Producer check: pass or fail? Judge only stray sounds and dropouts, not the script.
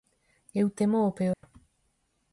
fail